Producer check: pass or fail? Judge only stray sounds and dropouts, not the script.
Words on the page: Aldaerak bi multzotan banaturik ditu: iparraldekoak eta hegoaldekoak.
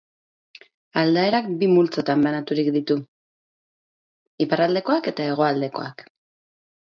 pass